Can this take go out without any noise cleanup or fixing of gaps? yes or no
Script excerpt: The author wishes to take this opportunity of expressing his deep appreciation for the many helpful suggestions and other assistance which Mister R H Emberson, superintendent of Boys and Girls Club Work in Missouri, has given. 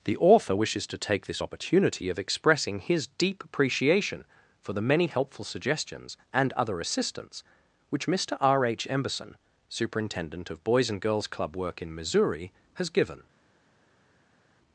yes